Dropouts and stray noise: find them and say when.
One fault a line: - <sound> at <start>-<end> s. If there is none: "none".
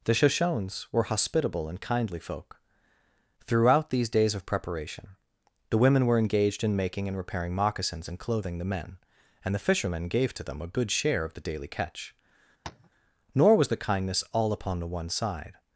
- tap at 12.6-12.9 s